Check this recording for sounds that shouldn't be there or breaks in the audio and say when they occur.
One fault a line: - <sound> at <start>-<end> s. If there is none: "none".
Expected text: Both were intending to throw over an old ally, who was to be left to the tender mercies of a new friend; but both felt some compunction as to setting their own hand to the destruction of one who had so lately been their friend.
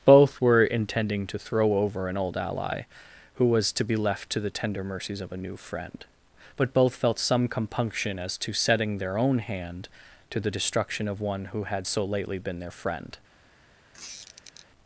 - squeak at 13.9-14.7 s